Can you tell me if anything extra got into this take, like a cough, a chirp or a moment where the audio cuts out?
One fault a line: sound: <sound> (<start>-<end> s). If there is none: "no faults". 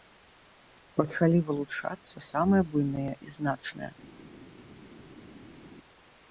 no faults